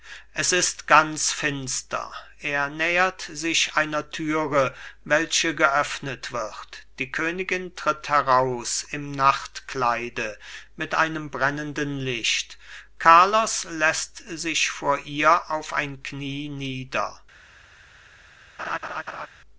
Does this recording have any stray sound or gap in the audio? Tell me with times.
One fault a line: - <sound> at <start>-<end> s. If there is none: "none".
- laugh at 18.6-19.3 s